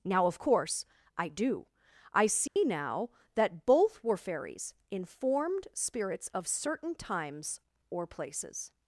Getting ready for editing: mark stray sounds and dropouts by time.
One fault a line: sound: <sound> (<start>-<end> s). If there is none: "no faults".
sound: dropout (2.5-2.6 s)